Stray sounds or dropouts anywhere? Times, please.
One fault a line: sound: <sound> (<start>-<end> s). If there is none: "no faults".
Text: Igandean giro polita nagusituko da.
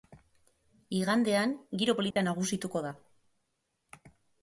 sound: dropout (2.1-2.2 s)